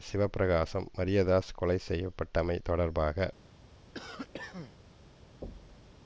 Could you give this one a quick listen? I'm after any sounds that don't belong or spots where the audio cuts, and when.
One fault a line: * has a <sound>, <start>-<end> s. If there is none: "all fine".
* has a cough, 3.9-4.8 s
* has a thud, 5.4-5.9 s